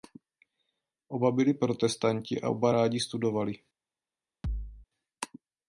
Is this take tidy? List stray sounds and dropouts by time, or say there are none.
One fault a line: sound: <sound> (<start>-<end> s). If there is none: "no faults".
sound: thud (4.4-4.9 s)